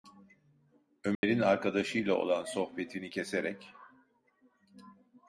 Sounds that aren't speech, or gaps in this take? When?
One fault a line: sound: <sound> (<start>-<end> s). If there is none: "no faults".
sound: dropout (1.1-1.2 s)